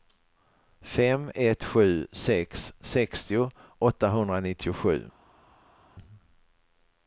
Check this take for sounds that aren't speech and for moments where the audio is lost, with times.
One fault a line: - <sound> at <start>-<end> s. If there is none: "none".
none